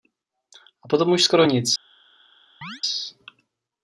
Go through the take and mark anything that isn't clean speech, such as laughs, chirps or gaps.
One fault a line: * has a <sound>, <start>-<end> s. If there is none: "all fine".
* has a chirp, 2.6-2.8 s